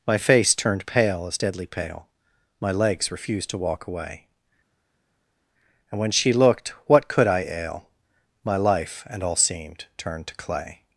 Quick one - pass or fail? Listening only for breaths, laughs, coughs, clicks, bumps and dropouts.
pass